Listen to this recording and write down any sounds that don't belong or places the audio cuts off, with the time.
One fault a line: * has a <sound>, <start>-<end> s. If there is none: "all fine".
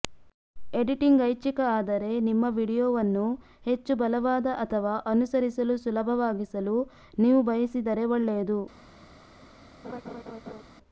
* has a laugh, 9.8-10.6 s